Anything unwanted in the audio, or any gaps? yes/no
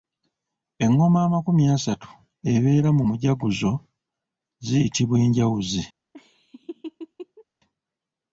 yes